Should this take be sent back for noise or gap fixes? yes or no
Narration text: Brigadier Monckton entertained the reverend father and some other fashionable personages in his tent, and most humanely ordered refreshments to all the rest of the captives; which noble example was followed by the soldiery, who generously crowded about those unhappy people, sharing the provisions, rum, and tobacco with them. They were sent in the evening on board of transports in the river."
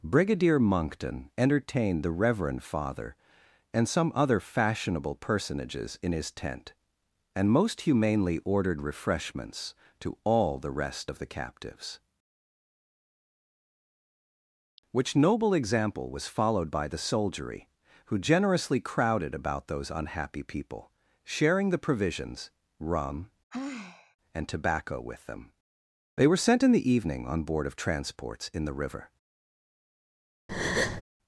yes